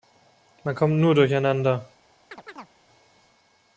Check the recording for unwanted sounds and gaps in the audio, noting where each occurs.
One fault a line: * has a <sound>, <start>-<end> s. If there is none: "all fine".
* has a chirp, 2.3-2.7 s